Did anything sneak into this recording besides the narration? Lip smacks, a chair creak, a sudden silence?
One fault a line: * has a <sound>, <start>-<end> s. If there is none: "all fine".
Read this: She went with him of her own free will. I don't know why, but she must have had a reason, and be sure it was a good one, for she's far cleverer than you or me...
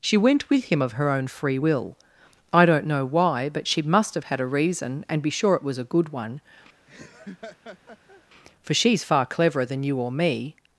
* has a laugh, 6.9-8.2 s